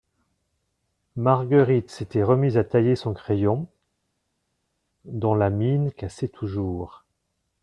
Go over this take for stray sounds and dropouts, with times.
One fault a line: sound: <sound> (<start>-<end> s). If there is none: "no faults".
no faults